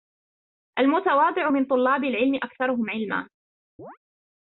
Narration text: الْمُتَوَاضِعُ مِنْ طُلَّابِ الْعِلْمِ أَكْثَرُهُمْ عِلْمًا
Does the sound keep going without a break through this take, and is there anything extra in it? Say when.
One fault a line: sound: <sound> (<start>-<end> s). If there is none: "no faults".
sound: chirp (3.8-4.0 s)